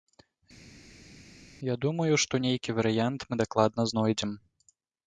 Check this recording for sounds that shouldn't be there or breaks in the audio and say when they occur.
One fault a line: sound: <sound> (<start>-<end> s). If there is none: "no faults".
no faults